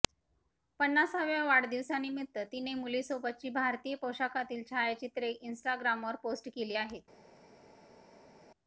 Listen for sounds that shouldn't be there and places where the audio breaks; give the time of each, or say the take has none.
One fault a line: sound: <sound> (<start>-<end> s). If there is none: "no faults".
no faults